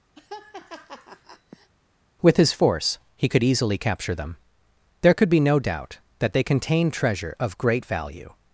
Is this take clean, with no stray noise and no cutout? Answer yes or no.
no